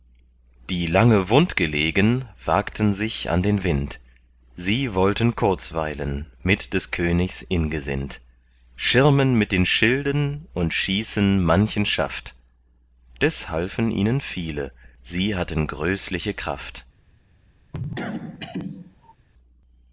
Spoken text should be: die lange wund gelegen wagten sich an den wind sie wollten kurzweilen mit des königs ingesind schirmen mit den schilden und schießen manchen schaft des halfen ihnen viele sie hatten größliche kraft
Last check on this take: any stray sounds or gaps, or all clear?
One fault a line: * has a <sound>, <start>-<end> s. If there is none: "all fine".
* has a cough, 17.7-19.2 s